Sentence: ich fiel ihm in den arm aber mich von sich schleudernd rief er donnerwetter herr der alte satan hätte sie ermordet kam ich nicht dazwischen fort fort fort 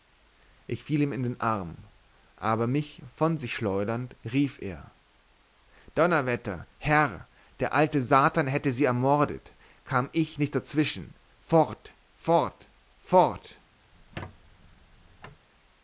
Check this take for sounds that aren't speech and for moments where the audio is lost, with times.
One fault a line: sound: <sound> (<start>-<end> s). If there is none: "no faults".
sound: squeak (13.9-15.5 s)